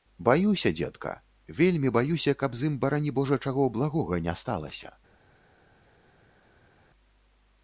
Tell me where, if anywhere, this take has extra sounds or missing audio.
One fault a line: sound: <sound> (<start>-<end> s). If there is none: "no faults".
no faults